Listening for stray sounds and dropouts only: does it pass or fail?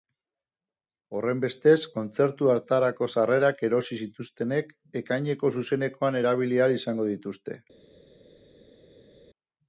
pass